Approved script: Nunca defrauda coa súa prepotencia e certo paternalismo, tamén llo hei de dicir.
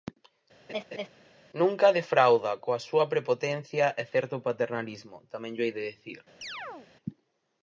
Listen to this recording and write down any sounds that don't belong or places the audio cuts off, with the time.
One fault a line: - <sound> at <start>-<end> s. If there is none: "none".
- laugh at 0.7-1.1 s
- chirp at 6.4-6.9 s